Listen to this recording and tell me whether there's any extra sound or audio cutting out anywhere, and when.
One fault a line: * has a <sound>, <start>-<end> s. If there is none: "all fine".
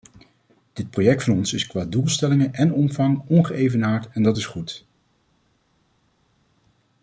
all fine